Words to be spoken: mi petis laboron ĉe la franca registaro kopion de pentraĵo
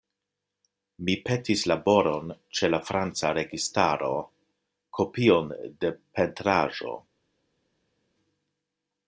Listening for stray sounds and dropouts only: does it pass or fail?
pass